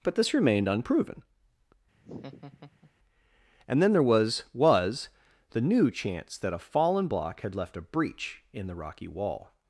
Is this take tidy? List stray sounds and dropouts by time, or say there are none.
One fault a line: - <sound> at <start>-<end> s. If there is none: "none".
- laugh at 1.9-2.9 s